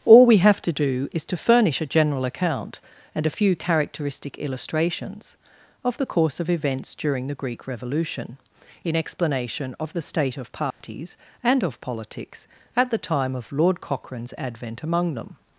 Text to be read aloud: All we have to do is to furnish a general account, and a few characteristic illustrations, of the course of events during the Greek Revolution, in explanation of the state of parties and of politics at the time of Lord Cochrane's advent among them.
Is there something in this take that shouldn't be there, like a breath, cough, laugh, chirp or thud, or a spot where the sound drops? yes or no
yes